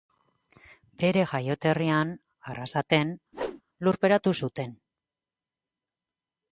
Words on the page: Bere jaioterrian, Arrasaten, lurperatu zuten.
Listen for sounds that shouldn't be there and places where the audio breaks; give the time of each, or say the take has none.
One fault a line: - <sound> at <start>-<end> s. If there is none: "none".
- whoosh at 3.3-3.6 s